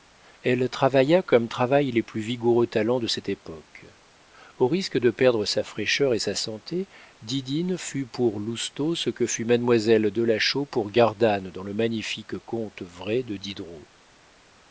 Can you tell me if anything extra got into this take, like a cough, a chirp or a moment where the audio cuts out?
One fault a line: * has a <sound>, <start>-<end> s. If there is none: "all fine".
all fine